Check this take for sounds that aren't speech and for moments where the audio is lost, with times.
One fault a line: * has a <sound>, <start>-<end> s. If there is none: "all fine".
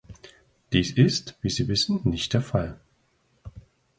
all fine